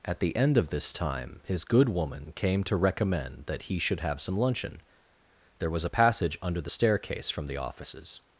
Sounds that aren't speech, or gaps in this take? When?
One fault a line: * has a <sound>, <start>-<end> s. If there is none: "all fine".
all fine